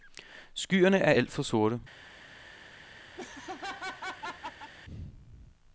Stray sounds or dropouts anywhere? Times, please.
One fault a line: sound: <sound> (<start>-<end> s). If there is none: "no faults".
sound: laugh (3.2-4.7 s)